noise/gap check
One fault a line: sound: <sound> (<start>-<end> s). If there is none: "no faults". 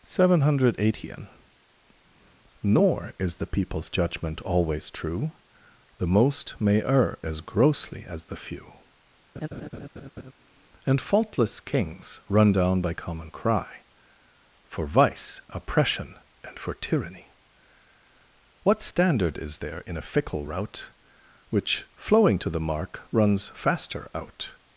sound: laugh (9.4-10.3 s)